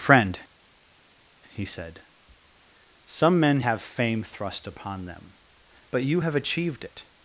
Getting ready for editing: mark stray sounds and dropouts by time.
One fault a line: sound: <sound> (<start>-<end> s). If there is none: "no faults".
no faults